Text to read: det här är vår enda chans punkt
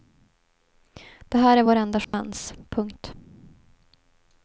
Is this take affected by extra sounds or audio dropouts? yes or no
yes